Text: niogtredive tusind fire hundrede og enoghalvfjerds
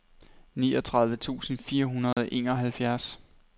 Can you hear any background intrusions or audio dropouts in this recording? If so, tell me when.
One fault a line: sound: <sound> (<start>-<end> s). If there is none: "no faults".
sound: dropout (2.1-2.2 s)